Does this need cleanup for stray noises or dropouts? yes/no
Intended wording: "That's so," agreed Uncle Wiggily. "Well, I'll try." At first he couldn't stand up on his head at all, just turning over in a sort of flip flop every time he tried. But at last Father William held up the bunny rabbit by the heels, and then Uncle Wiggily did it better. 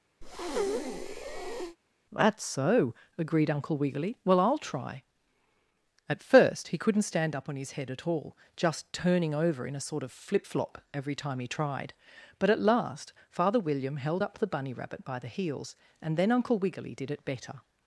yes